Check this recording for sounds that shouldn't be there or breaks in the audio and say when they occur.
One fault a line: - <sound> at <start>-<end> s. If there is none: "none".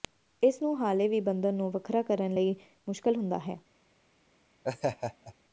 - laugh at 4.6-5.3 s